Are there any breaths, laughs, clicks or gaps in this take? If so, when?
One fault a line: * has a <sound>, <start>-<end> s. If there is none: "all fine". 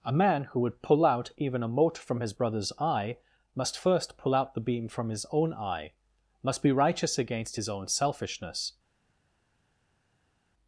all fine